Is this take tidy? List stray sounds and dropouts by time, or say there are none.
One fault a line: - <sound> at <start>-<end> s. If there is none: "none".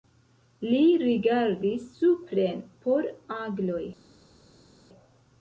none